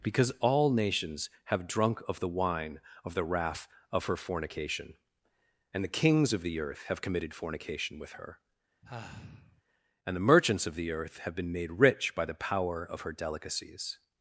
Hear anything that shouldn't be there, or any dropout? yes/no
yes